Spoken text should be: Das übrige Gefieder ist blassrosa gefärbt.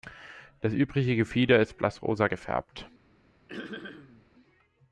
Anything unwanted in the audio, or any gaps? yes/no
yes